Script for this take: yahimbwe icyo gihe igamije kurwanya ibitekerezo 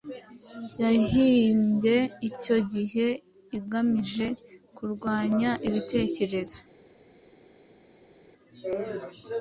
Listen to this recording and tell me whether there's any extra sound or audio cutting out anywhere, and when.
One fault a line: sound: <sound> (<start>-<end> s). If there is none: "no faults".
no faults